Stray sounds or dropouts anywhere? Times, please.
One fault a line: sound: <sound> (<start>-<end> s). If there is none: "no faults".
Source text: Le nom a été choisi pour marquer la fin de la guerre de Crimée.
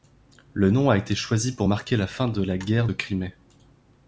no faults